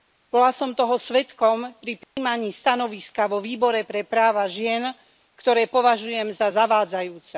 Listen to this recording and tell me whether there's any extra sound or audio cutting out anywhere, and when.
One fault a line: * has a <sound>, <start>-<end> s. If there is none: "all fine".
* has a dropout, 2.0-2.2 s